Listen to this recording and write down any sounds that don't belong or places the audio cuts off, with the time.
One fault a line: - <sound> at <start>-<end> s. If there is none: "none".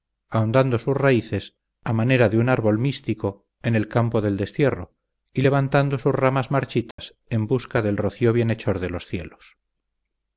- dropout at 6.9-7.0 s